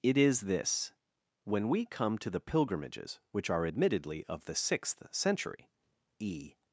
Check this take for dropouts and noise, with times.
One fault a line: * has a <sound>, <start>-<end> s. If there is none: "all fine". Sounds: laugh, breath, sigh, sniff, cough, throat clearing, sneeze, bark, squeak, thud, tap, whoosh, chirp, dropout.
all fine